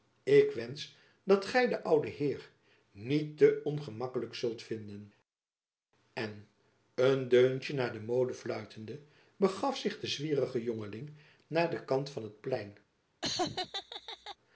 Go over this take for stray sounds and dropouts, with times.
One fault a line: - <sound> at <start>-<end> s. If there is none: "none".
- laugh at 13.2-14.4 s